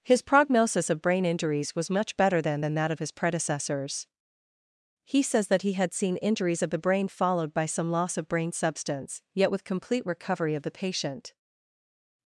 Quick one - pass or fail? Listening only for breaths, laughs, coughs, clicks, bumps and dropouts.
pass